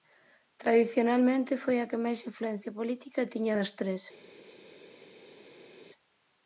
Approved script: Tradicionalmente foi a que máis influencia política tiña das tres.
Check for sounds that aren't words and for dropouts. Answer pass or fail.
pass